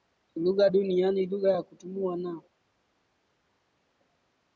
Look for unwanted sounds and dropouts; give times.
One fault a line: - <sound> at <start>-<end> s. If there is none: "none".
none